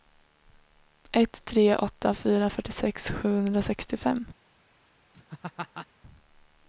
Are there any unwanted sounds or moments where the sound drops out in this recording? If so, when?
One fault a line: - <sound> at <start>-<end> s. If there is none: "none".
- laugh at 5.1-5.9 s